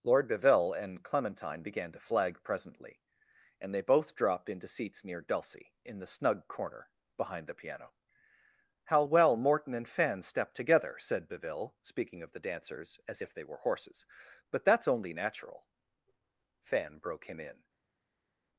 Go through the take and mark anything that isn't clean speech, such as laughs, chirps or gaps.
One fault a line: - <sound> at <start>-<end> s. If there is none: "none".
none